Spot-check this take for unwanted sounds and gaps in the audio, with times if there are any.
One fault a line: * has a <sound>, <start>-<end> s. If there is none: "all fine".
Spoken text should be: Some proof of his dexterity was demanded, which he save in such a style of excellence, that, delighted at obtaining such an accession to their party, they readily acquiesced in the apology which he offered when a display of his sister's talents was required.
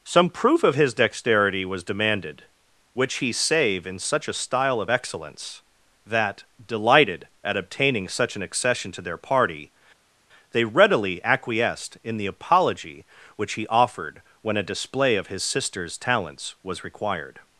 all fine